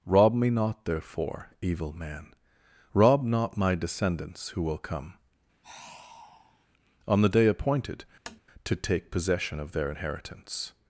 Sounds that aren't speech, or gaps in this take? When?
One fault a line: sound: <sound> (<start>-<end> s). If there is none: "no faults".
sound: sigh (5.6-6.7 s)
sound: tap (8.3-8.4 s)